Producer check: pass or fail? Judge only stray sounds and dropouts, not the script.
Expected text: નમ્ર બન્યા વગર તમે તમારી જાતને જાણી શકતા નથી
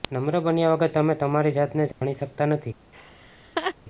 fail